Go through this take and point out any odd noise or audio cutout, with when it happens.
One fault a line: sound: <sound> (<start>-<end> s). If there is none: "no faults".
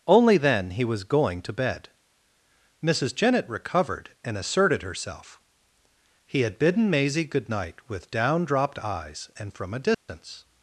sound: dropout (9.9-10.1 s)